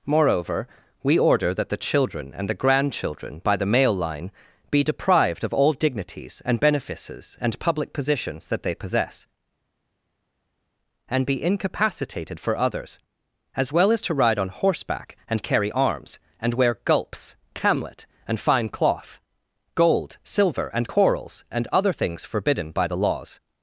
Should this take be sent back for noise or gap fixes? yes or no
no